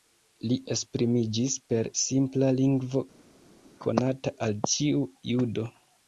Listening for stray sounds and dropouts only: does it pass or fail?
pass